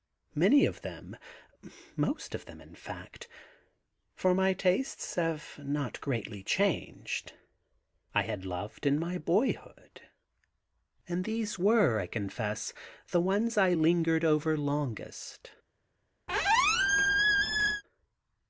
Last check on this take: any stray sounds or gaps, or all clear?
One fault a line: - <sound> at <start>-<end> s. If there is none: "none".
- squeak at 16.3-17.8 s